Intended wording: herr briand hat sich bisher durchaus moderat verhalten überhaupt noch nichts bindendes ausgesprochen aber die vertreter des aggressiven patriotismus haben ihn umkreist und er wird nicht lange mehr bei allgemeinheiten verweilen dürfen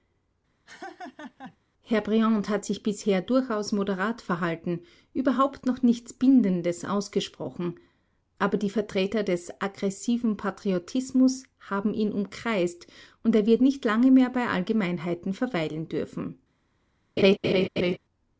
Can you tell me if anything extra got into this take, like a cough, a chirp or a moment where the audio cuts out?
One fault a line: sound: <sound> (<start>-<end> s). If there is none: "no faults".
sound: laugh (0.7-1.6 s)
sound: laugh (17.2-18.0 s)